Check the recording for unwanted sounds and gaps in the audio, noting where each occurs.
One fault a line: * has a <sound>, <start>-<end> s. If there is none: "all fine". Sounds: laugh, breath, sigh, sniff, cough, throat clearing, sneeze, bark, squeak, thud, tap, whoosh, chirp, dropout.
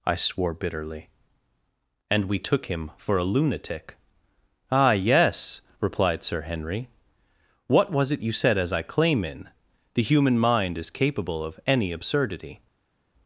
all fine